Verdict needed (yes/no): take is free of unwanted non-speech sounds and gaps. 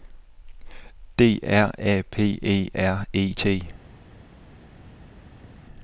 yes